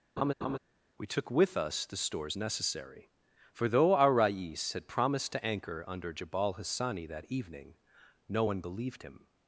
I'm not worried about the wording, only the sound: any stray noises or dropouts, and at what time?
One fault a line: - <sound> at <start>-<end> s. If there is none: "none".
- laugh at 0.2-0.6 s